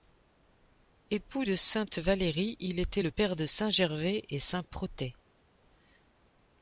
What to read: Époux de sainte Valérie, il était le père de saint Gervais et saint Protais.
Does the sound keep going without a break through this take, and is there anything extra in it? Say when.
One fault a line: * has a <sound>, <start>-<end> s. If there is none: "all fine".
all fine